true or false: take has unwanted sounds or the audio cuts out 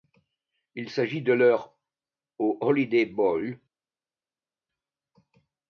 false